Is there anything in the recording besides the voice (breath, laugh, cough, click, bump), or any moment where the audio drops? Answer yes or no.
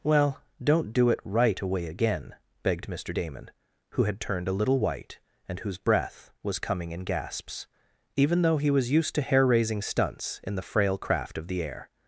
no